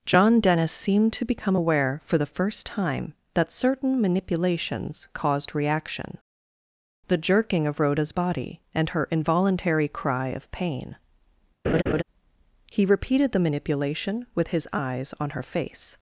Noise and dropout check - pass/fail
fail